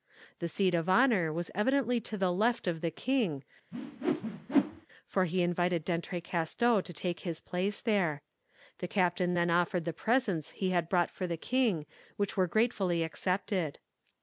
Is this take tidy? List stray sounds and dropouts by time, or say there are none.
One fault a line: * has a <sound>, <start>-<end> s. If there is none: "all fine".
* has a whoosh, 3.7-4.9 s